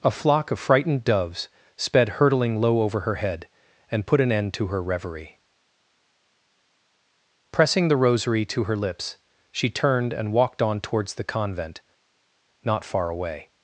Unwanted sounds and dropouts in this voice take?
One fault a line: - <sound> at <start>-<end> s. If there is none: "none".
none